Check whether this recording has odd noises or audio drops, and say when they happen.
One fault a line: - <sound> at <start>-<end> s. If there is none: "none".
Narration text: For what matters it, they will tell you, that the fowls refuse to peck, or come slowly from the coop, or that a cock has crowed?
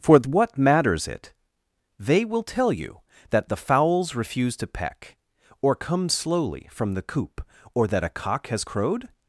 none